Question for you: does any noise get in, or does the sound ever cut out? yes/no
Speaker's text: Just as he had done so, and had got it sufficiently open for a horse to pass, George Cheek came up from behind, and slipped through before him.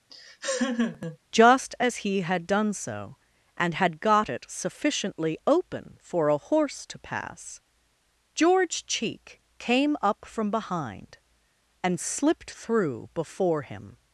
yes